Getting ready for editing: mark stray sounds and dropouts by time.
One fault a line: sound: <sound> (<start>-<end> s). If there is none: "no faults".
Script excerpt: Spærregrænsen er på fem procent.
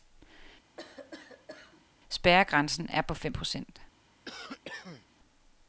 sound: cough (0.8-1.8 s)
sound: cough (4.3-5.1 s)